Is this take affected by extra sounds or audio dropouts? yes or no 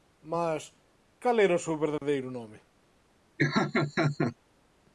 yes